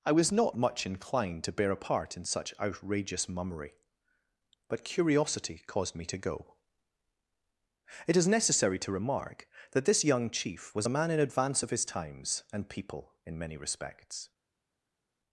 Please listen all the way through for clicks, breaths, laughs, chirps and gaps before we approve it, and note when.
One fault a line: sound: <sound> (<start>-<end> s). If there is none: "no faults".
no faults